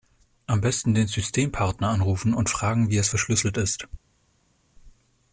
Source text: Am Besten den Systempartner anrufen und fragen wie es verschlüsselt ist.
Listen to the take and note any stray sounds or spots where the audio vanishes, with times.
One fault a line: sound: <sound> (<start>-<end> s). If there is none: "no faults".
no faults